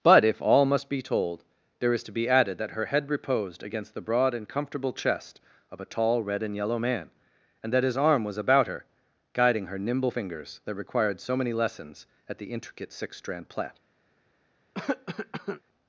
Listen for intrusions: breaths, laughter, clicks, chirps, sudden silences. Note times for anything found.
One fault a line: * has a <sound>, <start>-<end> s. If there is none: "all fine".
* has a cough, 14.7-15.6 s